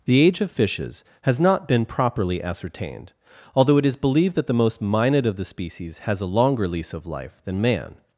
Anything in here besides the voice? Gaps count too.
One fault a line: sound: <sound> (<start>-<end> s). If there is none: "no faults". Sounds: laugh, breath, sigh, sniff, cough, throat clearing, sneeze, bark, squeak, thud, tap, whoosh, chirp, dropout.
no faults